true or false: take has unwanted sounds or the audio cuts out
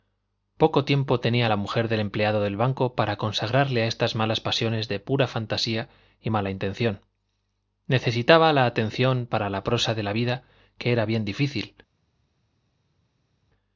false